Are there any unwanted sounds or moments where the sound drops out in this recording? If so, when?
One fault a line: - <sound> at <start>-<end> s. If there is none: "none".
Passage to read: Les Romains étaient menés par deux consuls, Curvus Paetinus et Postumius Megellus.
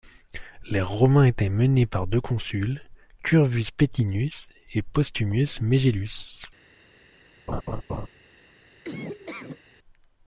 - laugh at 7.5-8.1 s
- laugh at 8.8-9.6 s